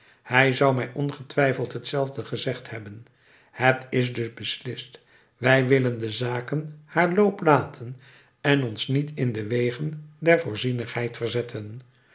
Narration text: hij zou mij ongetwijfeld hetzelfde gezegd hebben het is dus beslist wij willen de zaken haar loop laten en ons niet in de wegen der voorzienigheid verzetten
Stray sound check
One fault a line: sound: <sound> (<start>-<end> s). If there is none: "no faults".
no faults